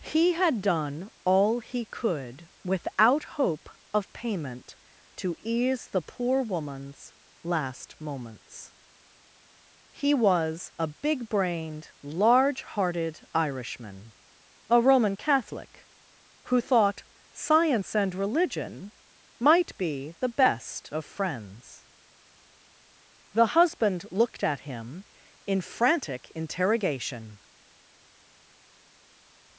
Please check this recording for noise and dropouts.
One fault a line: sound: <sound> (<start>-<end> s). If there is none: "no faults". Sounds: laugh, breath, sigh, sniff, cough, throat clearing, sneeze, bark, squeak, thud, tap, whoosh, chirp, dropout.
no faults